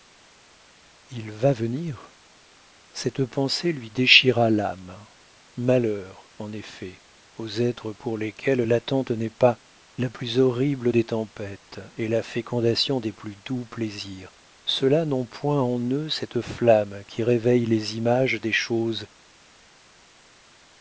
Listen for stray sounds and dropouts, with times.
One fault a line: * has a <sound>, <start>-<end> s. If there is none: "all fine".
all fine